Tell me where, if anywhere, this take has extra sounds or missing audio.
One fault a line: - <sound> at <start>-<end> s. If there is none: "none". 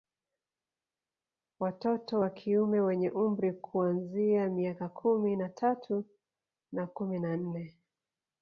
none